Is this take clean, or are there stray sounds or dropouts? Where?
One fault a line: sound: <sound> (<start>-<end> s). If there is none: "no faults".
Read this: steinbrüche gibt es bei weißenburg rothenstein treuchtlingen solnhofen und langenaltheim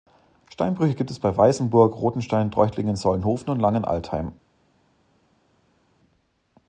no faults